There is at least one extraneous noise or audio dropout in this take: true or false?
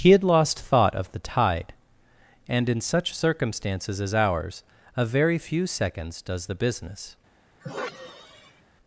true